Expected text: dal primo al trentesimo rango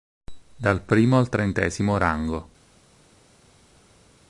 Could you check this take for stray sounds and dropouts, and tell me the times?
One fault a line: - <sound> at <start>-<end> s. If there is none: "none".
none